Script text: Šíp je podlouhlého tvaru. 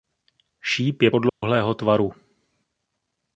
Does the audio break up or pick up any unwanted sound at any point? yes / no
yes